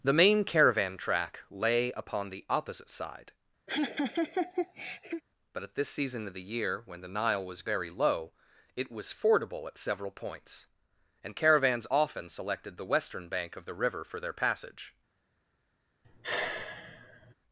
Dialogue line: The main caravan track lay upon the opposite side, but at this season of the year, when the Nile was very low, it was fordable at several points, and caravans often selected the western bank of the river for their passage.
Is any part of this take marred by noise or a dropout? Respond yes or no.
yes